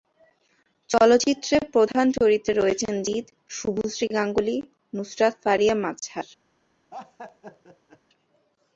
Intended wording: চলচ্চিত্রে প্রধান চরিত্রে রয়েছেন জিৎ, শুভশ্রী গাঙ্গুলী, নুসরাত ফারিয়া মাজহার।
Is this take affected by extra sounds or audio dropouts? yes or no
yes